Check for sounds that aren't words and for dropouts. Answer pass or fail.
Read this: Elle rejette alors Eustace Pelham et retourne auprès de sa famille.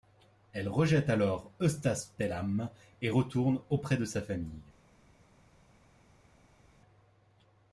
pass